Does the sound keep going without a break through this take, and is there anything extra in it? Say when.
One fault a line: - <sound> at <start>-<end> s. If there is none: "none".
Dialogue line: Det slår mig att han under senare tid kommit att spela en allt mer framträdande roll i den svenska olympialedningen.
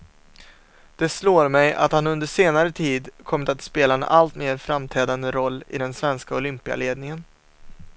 none